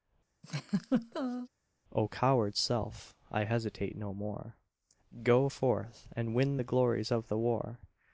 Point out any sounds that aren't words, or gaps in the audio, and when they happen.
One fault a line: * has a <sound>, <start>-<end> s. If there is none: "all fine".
* has a laugh, 0.4-1.5 s